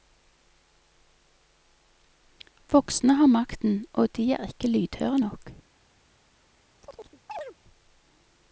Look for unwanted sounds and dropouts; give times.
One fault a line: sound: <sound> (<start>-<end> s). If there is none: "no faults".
sound: chirp (6.8-7.5 s)